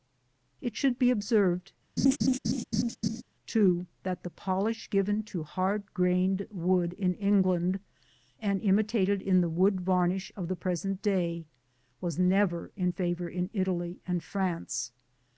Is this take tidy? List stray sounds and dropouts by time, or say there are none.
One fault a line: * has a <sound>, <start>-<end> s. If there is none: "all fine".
* has a laugh, 2.0-3.2 s